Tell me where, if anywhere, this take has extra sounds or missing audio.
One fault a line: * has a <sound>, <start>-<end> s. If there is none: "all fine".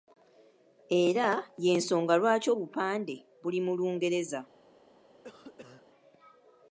* has a cough, 5.2-5.8 s